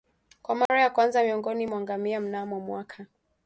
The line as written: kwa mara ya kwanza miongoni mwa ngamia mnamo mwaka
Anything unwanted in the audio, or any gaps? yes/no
yes